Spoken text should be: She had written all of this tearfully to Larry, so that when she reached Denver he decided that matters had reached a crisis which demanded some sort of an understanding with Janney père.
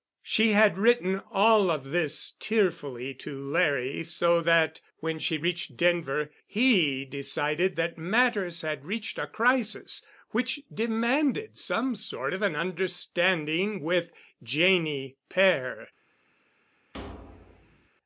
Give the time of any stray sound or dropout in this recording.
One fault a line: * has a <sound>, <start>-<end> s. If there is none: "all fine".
* has a thud, 16.9-17.9 s